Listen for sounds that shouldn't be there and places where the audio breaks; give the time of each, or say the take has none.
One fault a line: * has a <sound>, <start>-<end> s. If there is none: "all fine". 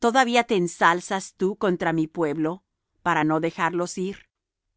all fine